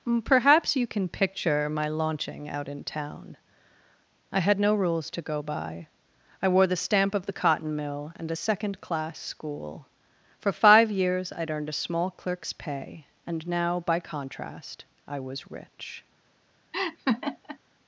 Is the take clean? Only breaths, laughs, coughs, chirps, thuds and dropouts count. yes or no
no